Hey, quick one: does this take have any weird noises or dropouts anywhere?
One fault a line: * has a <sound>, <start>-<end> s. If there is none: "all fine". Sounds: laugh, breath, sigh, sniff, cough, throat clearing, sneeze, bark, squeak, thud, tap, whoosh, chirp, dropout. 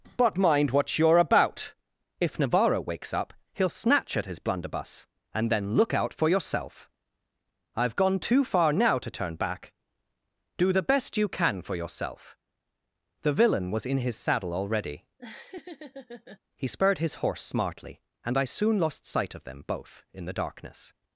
* has a laugh, 15.2-16.4 s